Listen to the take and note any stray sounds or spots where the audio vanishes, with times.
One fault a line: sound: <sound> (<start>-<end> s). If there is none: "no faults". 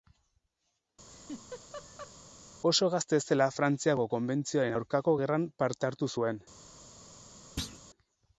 sound: laugh (1.1-2.1 s)
sound: thud (7.6-7.8 s)